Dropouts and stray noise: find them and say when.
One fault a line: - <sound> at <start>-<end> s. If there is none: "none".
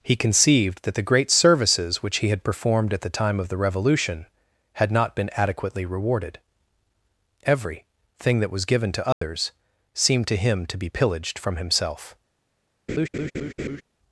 - dropout at 9.1-9.2 s
- laugh at 12.9-13.8 s